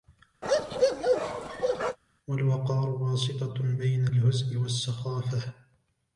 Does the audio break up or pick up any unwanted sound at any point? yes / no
yes